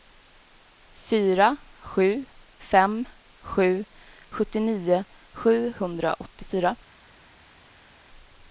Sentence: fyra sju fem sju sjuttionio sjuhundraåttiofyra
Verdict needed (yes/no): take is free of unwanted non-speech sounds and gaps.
yes